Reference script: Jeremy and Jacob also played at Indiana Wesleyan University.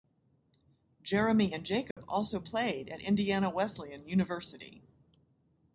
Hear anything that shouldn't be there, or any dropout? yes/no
yes